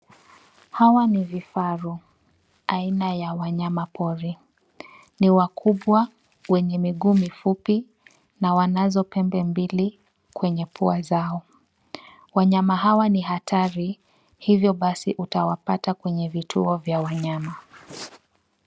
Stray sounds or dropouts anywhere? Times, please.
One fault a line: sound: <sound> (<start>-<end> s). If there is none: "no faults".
no faults